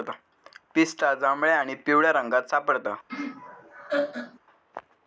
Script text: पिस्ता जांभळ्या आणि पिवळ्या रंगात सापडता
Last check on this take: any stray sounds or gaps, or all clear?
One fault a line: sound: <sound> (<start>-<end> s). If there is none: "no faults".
sound: laugh (3.1-4.4 s)